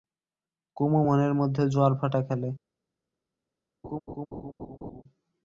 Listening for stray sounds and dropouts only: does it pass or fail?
fail